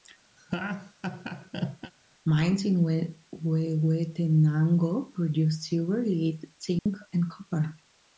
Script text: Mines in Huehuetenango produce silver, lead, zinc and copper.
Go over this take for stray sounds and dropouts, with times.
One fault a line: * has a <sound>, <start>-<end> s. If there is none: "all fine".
* has a laugh, 0.4-1.9 s
* has a dropout, 6.8-6.9 s